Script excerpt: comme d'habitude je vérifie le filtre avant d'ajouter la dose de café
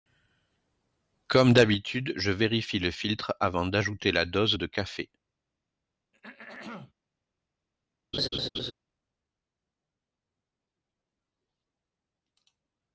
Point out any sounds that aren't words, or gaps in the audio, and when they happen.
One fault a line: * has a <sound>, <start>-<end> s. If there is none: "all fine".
* has a throat clearing, 6.1-6.9 s
* has a laugh, 8.1-8.7 s